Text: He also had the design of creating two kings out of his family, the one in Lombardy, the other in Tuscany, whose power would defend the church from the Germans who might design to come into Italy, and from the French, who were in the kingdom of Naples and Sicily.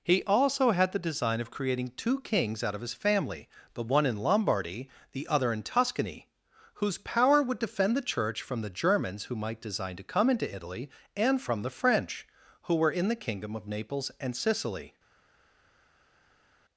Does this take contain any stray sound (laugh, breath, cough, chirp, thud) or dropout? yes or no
no